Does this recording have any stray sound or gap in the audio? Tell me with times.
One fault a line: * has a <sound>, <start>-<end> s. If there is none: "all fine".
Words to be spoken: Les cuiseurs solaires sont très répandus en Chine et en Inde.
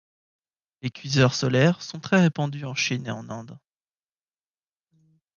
all fine